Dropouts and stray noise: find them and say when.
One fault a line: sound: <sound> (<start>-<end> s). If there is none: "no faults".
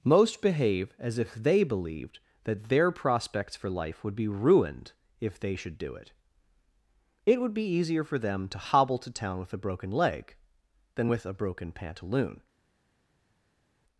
no faults